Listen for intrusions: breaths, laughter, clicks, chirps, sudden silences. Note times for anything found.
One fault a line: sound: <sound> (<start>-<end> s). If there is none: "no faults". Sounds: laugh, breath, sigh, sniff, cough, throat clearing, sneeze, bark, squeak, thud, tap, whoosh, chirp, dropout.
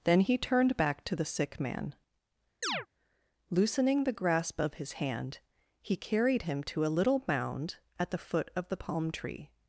sound: chirp (2.6-2.9 s)